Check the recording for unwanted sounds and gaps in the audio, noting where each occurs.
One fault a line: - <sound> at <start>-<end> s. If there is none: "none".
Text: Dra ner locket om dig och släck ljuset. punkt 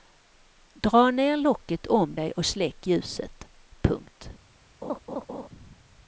- laugh at 4.8-5.5 s